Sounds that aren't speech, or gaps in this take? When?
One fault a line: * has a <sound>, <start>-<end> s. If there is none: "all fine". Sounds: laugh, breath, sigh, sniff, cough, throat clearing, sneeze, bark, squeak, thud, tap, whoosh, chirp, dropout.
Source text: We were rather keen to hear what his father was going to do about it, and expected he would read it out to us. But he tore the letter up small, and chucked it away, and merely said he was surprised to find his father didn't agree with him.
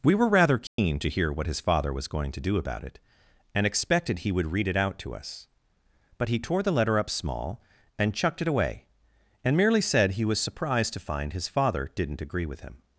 * has a dropout, 0.7-0.8 s